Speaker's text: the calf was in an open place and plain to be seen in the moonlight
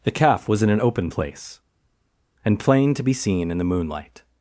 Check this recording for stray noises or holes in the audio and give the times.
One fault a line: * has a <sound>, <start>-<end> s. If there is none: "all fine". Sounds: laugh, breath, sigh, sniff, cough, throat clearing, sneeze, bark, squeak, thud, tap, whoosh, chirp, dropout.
all fine